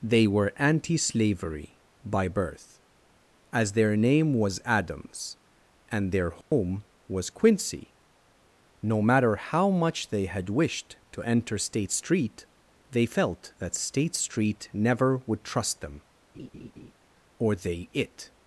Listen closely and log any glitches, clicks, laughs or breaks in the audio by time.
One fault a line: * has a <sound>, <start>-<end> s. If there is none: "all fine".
* has a dropout, 6.4-6.5 s
* has a laugh, 16.3-16.9 s